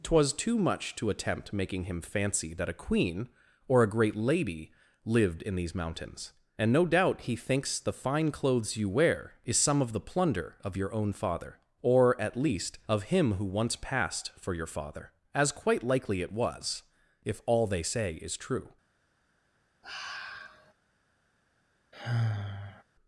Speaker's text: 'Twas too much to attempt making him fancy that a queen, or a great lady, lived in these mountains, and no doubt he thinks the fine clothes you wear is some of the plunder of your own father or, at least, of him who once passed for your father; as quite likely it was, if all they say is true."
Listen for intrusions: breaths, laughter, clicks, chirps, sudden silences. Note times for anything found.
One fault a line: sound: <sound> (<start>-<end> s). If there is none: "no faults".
sound: sigh (19.8-20.7 s)
sound: sigh (21.9-22.8 s)